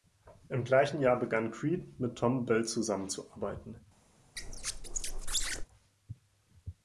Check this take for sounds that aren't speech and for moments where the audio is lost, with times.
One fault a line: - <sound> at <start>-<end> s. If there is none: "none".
- squeak at 4.4-5.7 s